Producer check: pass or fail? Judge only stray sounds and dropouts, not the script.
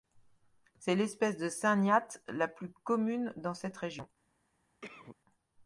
fail